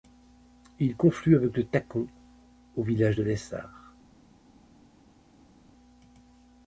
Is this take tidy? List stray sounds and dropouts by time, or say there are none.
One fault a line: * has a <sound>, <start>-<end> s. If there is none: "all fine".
all fine